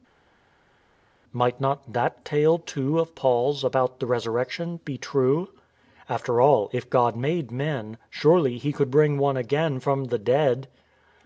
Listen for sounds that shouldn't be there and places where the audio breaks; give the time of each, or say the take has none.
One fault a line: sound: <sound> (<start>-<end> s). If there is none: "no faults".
no faults